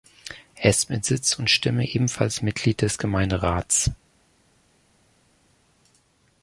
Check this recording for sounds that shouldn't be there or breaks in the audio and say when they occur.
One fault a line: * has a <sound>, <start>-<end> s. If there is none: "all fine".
all fine